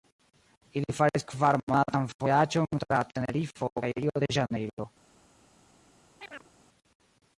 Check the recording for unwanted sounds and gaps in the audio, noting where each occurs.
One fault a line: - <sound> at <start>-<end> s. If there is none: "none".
- chirp at 6.2-6.5 s